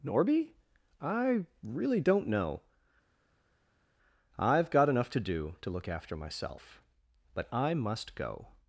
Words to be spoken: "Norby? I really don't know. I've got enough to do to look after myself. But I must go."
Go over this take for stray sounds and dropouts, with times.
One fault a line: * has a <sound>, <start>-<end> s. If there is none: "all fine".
all fine